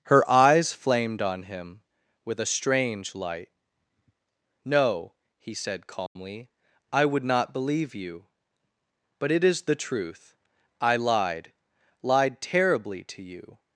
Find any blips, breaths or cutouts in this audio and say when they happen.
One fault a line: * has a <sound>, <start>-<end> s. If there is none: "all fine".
* has a dropout, 6.1-6.2 s